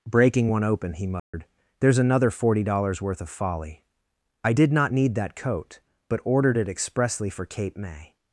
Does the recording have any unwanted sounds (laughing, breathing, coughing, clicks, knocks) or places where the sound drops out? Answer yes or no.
yes